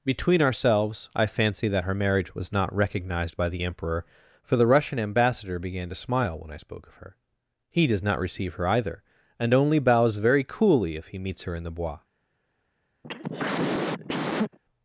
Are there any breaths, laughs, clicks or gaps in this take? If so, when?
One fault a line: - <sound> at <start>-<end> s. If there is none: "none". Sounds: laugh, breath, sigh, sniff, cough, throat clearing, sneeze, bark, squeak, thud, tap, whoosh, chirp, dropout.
- cough at 13.0-14.6 s